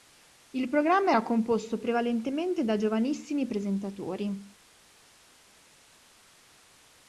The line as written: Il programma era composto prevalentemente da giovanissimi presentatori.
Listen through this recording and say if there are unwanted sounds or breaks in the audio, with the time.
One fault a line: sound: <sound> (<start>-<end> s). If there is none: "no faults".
no faults